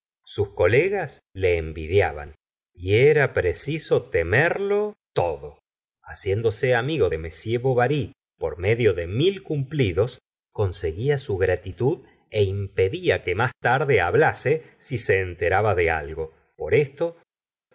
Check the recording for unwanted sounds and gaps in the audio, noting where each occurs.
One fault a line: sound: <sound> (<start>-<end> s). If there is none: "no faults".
no faults